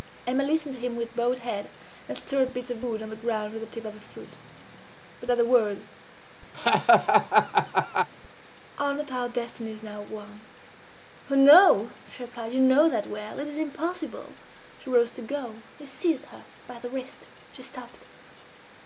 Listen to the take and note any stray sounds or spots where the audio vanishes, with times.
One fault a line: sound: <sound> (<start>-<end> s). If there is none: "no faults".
sound: laugh (6.5-8.1 s)